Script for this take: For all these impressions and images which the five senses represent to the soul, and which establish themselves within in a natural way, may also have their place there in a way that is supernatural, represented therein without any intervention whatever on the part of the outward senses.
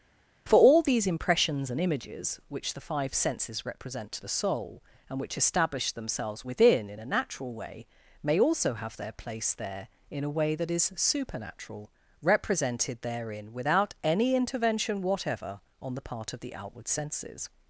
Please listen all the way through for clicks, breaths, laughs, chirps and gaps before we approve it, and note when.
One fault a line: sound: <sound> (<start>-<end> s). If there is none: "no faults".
no faults